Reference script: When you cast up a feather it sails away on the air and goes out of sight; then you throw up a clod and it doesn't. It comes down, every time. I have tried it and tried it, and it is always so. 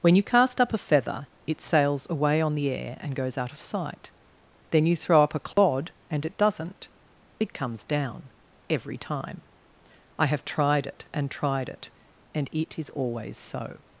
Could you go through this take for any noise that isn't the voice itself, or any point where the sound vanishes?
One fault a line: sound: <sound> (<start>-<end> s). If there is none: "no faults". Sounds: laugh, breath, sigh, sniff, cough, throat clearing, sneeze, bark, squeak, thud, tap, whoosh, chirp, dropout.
sound: dropout (5.5-5.6 s)